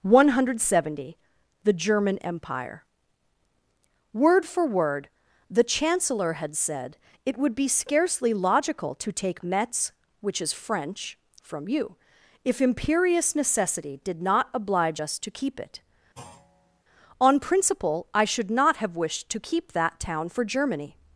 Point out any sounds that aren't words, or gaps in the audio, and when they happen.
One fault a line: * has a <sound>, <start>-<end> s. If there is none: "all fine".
* has a thud, 16.2-16.8 s